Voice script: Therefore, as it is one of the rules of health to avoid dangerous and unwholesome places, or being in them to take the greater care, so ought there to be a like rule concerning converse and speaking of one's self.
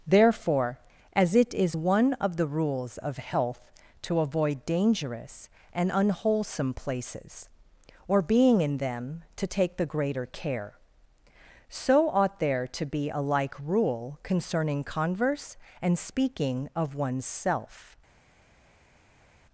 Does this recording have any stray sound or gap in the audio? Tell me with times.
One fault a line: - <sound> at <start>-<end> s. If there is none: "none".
none